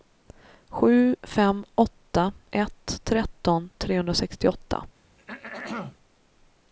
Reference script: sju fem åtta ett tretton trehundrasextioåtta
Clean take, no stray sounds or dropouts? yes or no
no